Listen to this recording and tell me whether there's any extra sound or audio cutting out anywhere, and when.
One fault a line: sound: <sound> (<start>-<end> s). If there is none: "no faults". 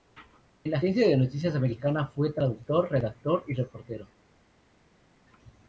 no faults